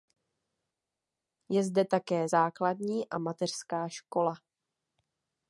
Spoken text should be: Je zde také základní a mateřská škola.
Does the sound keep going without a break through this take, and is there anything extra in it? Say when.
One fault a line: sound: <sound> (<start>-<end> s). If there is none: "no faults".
no faults